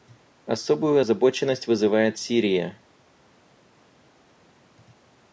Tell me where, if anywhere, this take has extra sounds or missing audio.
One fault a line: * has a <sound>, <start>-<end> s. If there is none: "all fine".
all fine